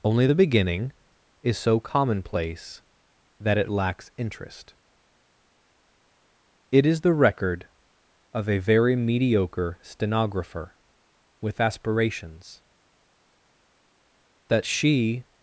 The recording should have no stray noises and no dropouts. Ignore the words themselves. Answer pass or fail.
pass